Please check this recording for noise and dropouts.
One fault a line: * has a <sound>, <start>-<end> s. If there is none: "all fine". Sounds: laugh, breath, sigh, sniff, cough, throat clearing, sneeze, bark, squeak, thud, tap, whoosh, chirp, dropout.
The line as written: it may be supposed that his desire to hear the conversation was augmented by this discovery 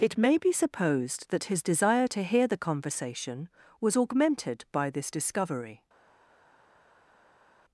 all fine